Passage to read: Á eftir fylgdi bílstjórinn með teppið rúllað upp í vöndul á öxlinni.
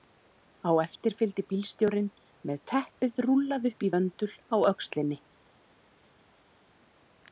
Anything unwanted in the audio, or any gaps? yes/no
no